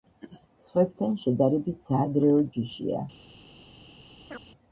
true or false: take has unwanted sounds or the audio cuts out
true